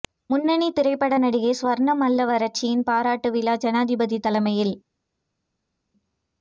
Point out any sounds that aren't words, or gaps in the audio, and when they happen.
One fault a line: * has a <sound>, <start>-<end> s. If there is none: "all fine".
all fine